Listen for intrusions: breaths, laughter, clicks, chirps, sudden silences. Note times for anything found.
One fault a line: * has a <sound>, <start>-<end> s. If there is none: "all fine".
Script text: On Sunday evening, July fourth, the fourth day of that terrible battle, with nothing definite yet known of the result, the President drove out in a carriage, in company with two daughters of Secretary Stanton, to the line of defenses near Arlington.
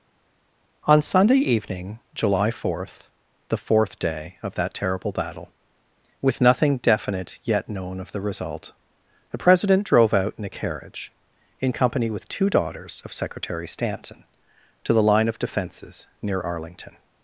all fine